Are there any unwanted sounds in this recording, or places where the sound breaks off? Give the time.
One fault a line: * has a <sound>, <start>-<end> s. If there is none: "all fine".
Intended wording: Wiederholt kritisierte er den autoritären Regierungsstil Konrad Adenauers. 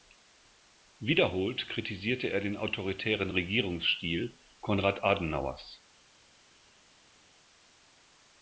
all fine